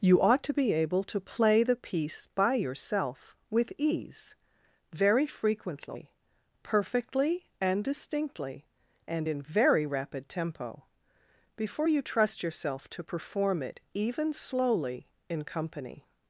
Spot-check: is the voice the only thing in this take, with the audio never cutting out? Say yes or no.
yes